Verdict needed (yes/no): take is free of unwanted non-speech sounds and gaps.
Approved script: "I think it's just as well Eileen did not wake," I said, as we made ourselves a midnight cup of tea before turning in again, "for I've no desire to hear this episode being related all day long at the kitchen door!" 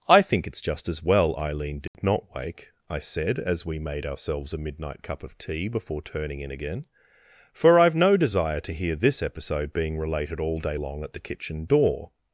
no